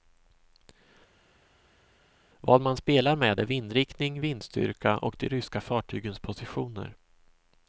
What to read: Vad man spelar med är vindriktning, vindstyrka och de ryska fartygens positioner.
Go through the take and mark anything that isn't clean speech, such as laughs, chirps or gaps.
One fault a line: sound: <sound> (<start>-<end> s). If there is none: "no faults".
no faults